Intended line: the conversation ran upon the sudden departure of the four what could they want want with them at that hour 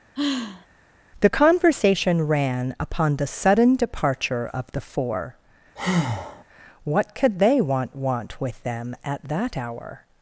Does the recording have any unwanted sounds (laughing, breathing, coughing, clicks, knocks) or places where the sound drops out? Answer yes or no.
yes